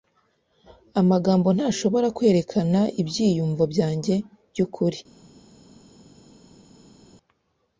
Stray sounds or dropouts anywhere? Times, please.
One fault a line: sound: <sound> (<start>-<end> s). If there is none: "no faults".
no faults